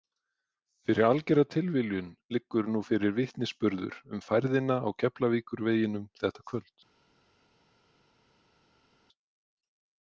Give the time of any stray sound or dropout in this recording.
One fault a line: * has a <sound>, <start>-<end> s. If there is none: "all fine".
all fine